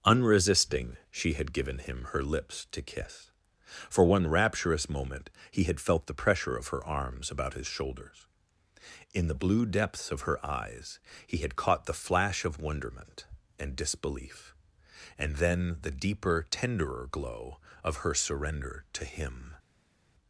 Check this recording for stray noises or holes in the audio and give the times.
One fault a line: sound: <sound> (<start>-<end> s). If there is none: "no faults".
no faults